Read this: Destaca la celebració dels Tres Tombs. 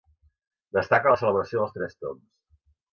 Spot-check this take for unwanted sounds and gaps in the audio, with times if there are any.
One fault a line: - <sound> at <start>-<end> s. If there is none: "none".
none